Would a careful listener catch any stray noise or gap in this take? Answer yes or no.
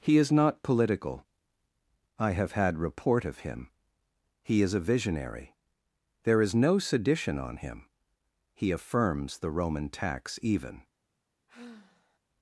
yes